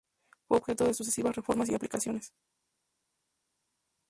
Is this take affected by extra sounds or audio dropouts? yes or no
no